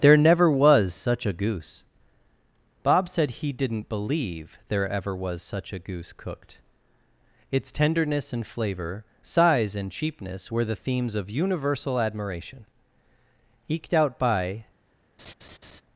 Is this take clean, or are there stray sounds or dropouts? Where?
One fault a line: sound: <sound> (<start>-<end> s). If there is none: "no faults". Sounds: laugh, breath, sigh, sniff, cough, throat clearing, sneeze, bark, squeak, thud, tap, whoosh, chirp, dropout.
sound: laugh (15.2-15.8 s)